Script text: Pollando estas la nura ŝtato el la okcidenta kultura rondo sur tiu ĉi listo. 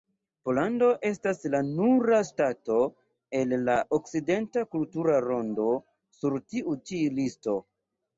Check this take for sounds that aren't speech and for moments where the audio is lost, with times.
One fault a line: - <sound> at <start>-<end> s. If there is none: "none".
none